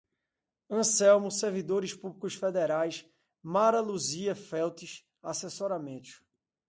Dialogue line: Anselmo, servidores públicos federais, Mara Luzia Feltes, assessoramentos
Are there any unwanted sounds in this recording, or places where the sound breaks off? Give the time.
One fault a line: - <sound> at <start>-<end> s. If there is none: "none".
none